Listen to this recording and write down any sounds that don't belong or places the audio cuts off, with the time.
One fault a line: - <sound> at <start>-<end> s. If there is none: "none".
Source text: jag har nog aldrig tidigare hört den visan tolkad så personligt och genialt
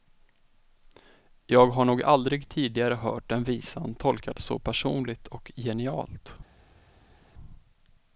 none